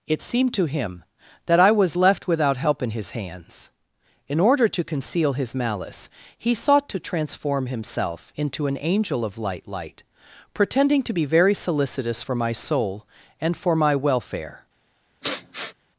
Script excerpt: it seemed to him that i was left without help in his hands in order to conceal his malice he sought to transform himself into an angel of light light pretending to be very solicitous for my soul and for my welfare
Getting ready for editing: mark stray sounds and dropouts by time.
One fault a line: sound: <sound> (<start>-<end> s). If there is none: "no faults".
sound: sniff (15.2-15.7 s)